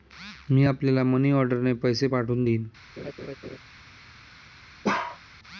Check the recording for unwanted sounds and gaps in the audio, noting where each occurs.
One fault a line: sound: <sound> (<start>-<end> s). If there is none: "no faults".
sound: laugh (3.0-3.6 s)
sound: bark (4.8-5.2 s)